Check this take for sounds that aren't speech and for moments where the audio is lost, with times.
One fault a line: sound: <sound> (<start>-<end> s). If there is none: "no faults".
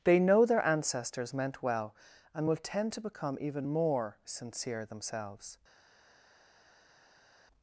no faults